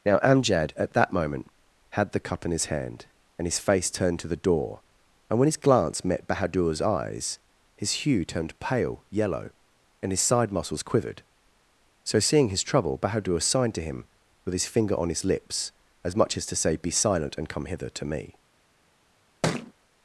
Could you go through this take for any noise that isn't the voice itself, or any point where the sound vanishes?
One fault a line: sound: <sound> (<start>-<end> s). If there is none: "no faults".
sound: thud (19.4-19.7 s)